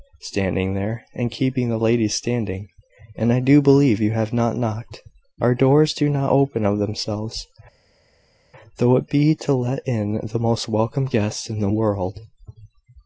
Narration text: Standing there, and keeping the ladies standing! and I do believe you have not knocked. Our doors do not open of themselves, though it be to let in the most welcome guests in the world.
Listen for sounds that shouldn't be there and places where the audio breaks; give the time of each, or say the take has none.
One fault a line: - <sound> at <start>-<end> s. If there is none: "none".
none